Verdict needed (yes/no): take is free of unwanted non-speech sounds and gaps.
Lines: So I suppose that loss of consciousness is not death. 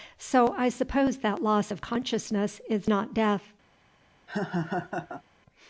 no